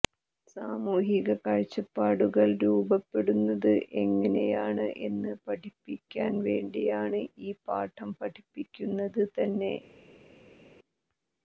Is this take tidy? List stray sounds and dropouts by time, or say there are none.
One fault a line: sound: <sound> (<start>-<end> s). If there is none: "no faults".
no faults